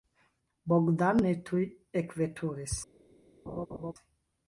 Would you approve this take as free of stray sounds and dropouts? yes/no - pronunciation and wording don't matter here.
no